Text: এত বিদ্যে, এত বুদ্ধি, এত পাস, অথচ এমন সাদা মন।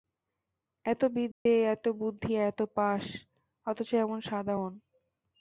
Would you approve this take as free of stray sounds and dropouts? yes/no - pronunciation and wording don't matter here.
no